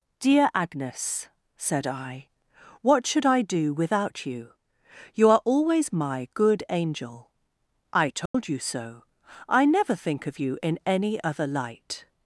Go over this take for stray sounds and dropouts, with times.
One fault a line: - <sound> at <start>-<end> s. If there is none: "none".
- dropout at 8.3-8.3 s